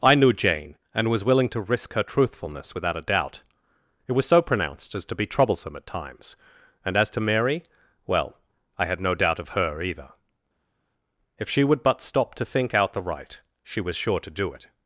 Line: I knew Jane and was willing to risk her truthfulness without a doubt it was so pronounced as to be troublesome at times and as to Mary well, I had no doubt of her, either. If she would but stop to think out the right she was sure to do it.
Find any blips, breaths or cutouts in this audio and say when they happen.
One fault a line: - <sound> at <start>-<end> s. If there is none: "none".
none